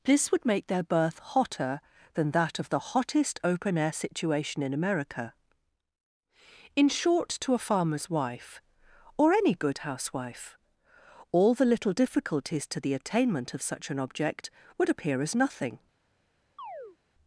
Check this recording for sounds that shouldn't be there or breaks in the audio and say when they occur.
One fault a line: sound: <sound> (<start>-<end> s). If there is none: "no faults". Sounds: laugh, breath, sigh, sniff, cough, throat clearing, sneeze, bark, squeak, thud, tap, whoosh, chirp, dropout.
sound: chirp (16.6-17.0 s)